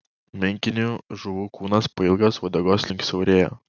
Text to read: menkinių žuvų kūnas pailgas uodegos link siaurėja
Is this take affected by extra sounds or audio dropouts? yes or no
no